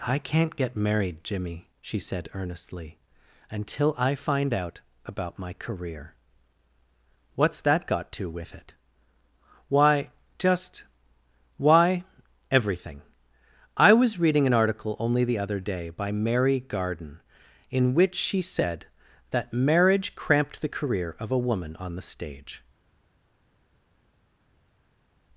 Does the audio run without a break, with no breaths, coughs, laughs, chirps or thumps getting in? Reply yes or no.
yes